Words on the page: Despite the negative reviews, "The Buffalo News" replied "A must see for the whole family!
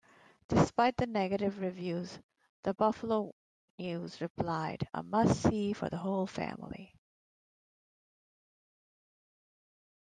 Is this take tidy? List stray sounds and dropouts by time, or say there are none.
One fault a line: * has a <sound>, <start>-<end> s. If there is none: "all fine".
all fine